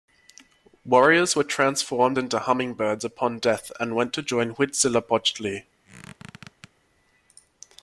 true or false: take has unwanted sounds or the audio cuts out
true